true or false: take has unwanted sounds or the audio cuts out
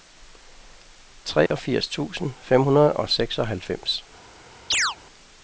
true